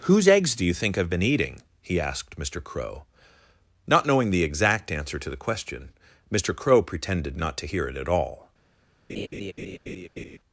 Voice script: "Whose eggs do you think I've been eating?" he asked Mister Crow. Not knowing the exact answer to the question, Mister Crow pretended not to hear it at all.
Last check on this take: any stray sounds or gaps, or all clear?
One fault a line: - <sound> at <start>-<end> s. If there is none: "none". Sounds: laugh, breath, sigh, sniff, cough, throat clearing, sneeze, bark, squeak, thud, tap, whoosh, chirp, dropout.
- laugh at 9.1-10.4 s